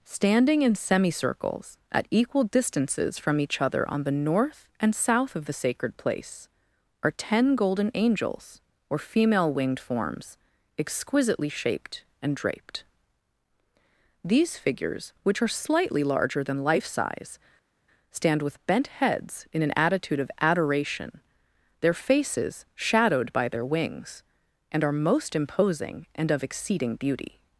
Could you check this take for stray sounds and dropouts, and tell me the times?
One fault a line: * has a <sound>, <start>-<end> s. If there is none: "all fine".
all fine